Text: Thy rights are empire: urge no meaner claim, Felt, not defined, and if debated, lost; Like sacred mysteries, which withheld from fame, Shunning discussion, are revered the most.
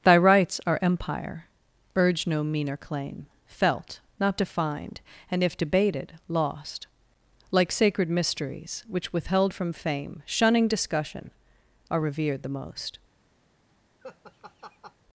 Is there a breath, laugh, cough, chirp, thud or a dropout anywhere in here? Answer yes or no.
yes